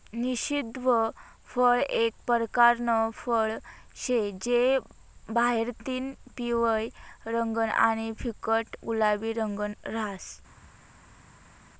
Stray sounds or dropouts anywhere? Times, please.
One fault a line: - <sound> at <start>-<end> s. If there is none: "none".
none